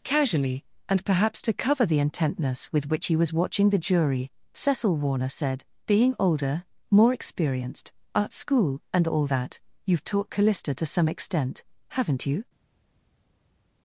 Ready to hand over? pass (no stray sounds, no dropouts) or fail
pass